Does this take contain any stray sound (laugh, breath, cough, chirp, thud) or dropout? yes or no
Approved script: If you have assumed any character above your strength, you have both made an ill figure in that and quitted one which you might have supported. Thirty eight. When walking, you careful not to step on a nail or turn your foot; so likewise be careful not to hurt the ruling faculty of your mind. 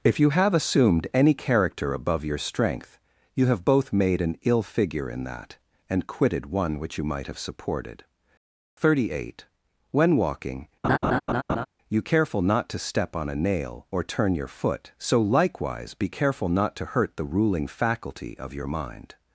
yes